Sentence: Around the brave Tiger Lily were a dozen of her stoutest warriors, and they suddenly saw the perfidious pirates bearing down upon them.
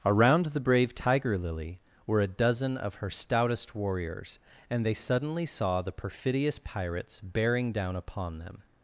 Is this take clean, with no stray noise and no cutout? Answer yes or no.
yes